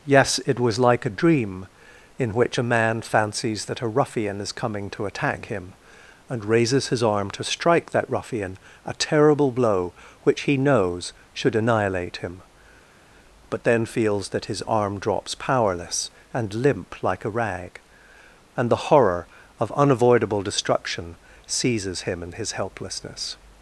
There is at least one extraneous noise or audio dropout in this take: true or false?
false